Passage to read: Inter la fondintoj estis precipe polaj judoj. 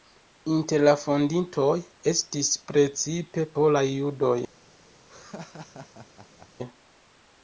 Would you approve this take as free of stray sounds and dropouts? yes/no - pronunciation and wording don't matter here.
no